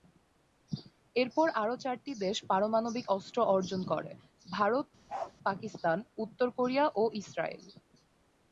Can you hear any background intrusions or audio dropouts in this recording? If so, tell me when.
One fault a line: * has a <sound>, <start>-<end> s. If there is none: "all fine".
* has a bark, 5.1-5.3 s